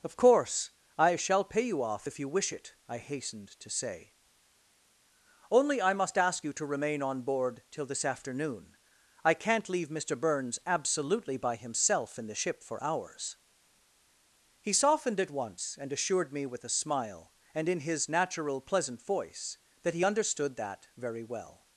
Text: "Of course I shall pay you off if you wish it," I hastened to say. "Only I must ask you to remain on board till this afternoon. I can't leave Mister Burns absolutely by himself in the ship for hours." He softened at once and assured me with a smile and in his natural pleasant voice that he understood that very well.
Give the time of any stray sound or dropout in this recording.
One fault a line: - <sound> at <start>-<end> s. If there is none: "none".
none